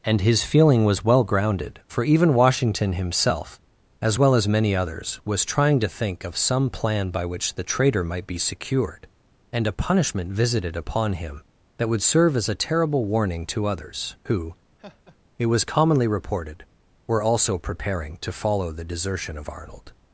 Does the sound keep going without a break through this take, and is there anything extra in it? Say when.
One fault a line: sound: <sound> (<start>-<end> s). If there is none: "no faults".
sound: laugh (14.8-15.2 s)